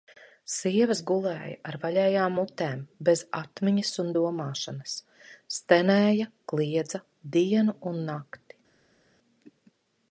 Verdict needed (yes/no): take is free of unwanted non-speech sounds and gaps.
yes